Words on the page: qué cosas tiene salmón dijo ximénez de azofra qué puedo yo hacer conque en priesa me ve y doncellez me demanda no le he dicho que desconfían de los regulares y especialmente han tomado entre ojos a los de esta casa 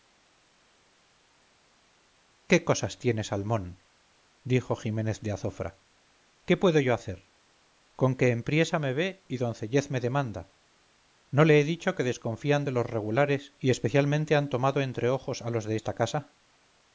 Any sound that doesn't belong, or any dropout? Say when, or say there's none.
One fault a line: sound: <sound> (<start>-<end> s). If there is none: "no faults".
no faults